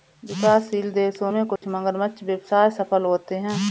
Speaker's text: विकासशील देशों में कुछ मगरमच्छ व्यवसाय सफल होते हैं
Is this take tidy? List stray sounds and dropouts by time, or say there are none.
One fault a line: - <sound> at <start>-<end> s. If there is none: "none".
- dropout at 1.6-1.6 s